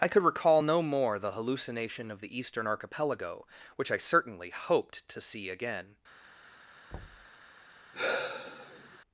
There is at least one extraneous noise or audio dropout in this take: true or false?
true